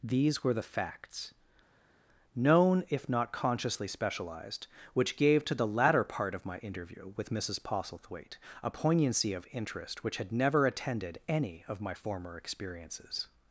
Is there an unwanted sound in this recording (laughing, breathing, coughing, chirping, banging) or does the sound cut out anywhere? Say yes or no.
no